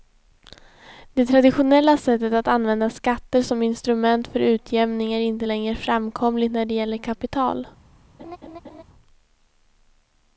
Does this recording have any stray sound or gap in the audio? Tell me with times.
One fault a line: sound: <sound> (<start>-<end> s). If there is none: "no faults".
sound: laugh (8.2-8.8 s)